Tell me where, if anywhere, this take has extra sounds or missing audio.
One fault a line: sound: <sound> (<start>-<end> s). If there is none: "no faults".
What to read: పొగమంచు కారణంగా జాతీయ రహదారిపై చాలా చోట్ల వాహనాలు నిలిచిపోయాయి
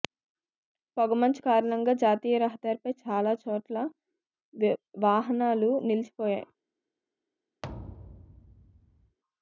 sound: thud (7.6-9.2 s)